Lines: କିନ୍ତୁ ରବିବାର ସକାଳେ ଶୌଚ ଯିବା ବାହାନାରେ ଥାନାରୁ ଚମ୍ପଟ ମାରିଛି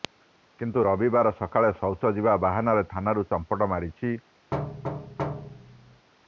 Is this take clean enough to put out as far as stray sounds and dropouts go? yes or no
no